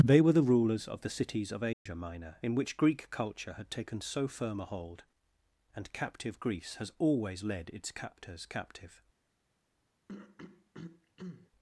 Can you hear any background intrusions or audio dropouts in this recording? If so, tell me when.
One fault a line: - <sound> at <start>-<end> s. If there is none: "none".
- dropout at 1.7-1.9 s
- throat clearing at 10.1-11.5 s